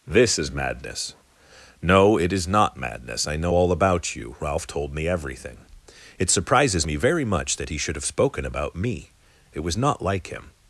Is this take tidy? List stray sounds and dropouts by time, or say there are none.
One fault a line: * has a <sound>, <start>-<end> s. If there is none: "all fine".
all fine